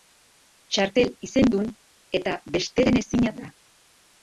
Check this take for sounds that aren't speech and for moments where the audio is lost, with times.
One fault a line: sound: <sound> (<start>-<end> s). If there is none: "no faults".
no faults